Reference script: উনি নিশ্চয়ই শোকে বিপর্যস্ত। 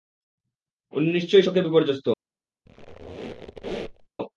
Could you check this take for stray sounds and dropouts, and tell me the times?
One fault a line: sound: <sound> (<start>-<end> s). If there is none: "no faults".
sound: squeak (2.7-4.1 s)